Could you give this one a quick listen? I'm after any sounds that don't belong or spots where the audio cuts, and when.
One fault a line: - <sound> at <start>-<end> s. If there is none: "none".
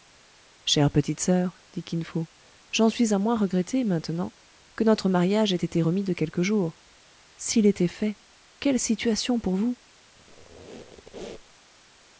- squeak at 10.2-11.6 s